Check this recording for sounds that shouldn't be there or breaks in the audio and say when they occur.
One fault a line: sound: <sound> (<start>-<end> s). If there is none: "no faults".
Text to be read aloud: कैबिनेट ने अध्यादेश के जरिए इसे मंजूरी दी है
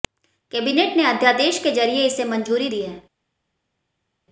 no faults